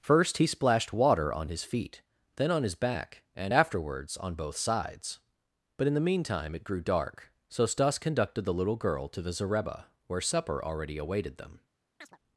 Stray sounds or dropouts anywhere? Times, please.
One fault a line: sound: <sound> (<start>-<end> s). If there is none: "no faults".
sound: chirp (12.0-12.2 s)